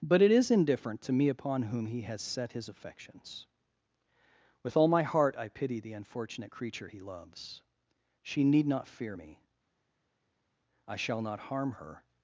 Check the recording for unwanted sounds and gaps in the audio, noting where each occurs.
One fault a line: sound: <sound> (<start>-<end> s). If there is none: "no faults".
no faults